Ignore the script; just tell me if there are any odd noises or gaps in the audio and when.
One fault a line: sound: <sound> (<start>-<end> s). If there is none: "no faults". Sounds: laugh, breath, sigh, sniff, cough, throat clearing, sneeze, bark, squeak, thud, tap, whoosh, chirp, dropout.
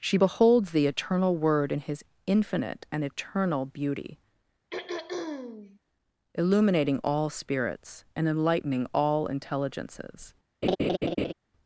sound: throat clearing (4.7-5.8 s)
sound: laugh (10.6-11.3 s)